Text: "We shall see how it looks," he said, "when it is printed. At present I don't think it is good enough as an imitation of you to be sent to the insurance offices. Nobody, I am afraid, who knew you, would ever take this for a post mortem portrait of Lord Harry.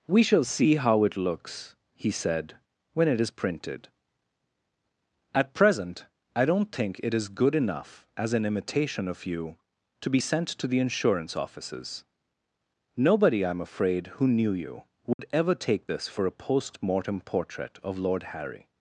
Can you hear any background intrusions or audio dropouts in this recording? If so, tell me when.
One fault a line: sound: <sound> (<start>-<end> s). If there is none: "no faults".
sound: dropout (15.1-15.2 s)